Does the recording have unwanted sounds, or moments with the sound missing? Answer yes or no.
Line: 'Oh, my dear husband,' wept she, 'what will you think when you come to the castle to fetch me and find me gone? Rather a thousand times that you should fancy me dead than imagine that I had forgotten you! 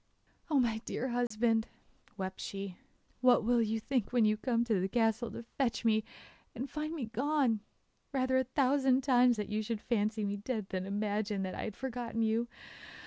yes